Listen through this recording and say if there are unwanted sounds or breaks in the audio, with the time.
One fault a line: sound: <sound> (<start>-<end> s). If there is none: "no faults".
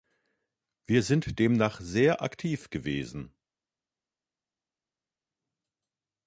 no faults